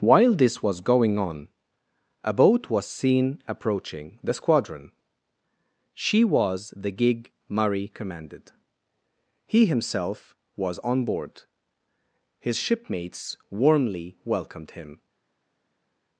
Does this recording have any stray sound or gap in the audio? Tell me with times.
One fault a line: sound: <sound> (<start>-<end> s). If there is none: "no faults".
no faults